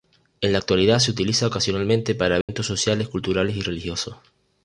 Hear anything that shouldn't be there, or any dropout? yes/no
yes